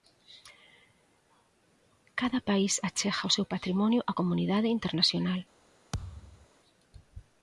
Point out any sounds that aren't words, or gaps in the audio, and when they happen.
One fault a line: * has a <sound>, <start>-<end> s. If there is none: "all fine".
* has a thud, 5.9-6.5 s